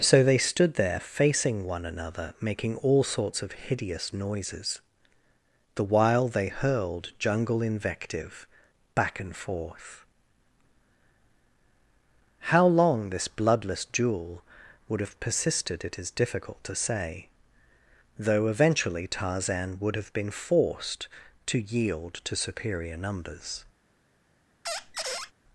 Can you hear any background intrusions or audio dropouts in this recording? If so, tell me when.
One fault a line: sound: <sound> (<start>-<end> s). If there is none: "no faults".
sound: squeak (24.6-25.3 s)